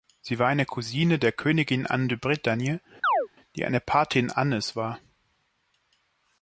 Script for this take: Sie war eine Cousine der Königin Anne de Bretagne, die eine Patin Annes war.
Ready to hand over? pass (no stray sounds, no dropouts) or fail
fail